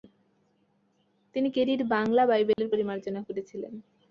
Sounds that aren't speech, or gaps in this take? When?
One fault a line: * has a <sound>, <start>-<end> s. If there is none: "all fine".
* has a dropout, 2.5-2.6 s